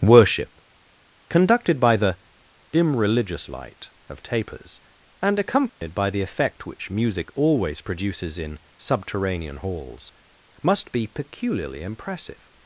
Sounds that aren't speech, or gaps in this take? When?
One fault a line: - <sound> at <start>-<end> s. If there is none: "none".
- dropout at 5.7-5.8 s